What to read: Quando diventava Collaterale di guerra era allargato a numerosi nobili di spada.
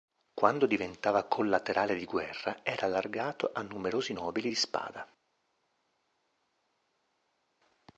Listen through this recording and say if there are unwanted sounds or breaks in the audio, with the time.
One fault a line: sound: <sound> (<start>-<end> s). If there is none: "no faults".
no faults